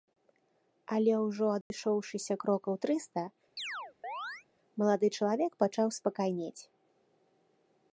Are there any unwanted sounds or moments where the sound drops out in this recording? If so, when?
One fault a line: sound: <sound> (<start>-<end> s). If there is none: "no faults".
sound: dropout (1.6-1.7 s)
sound: chirp (3.6-4.5 s)